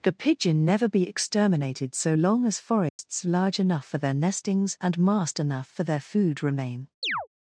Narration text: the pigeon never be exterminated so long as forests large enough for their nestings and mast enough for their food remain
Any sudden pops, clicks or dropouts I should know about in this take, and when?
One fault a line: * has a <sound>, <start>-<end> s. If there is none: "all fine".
* has a dropout, 2.9-3.0 s
* has a chirp, 7.0-7.3 s